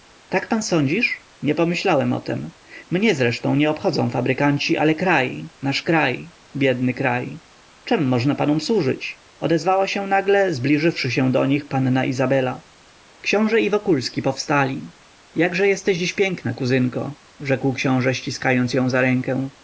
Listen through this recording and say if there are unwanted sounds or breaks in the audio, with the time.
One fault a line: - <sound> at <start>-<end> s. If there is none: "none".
none